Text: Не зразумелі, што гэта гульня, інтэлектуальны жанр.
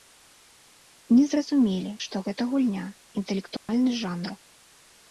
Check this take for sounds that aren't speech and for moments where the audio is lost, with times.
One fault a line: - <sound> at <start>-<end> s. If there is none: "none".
- dropout at 3.6-3.7 s